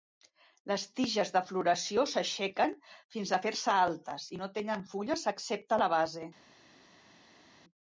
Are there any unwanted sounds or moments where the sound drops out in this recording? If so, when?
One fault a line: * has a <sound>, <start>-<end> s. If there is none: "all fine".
all fine